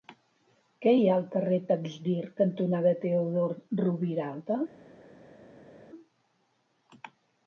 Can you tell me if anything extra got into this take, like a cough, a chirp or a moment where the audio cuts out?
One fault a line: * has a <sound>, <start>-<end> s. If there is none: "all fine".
all fine